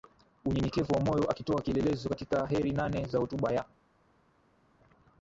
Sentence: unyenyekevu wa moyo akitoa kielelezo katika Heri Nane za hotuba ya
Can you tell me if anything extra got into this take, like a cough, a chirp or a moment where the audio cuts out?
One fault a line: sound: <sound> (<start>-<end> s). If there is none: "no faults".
no faults